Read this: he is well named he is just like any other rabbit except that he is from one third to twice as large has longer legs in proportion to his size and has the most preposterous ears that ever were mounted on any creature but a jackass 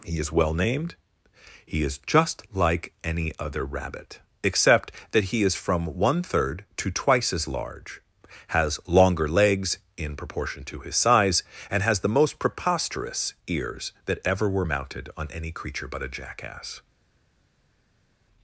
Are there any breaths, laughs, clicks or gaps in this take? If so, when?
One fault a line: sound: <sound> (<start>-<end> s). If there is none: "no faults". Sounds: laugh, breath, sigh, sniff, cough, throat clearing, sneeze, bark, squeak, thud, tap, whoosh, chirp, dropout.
no faults